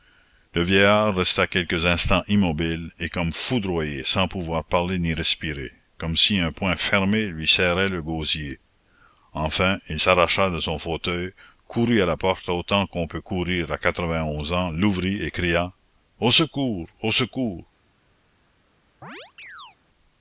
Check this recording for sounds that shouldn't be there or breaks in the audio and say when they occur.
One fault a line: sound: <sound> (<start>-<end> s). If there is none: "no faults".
sound: chirp (19.0-19.8 s)